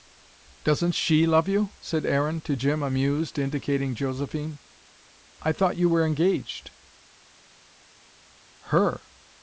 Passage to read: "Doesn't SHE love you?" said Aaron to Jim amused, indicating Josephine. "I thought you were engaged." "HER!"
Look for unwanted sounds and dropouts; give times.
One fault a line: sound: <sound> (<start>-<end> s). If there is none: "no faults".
no faults